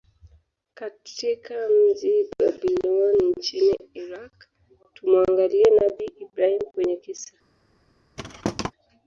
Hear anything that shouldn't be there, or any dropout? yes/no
yes